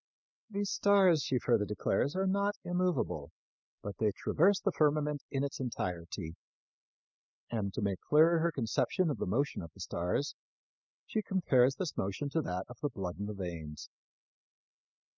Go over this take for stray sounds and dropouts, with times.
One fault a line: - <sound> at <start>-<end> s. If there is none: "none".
none